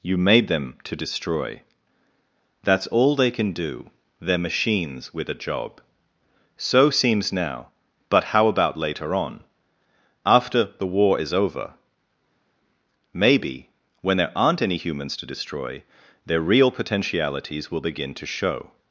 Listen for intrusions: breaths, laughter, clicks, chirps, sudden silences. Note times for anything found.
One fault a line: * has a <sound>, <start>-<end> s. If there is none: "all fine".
all fine